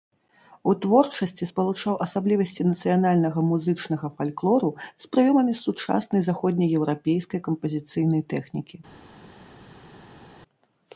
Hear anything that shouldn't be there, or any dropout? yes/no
no